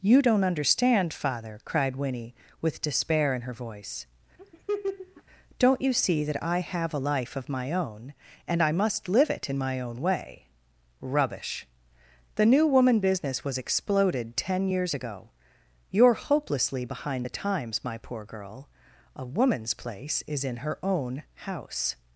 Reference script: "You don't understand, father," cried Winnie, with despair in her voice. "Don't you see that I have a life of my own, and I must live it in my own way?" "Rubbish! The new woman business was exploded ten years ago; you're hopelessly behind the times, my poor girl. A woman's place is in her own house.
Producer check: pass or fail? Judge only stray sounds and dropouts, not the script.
fail